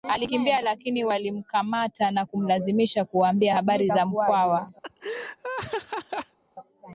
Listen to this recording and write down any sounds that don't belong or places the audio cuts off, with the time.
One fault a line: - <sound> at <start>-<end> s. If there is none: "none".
- laugh at 4.8-6.4 s